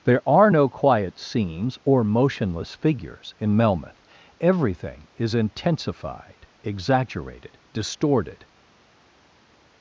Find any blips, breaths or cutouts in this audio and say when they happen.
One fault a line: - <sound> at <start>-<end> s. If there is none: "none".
none